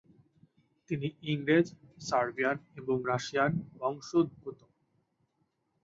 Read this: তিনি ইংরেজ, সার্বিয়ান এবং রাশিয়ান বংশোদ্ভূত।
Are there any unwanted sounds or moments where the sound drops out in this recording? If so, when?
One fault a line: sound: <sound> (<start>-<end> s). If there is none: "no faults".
no faults